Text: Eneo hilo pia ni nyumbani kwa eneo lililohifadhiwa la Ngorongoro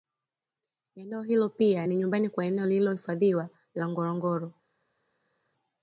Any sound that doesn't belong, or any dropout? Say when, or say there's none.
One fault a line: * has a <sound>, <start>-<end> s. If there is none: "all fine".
all fine